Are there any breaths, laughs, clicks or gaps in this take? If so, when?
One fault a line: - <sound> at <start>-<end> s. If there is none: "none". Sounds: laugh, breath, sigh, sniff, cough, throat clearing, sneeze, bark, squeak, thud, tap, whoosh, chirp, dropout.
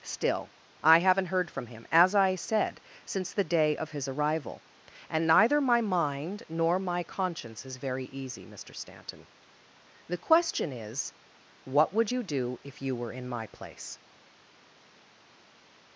none